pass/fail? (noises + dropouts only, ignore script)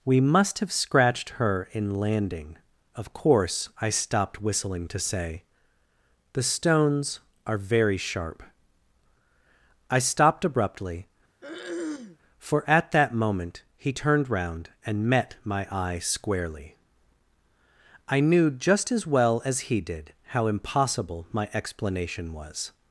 fail